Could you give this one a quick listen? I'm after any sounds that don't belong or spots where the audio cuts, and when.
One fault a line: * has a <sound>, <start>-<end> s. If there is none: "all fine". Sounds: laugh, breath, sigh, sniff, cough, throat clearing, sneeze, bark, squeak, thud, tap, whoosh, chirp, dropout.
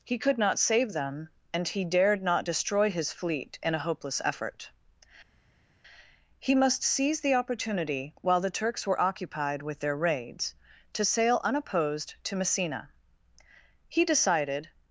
all fine